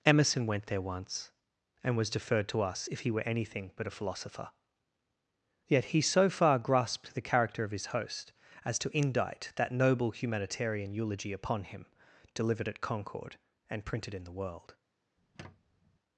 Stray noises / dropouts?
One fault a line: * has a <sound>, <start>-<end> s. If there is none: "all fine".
* has a squeak, 15.2-16.0 s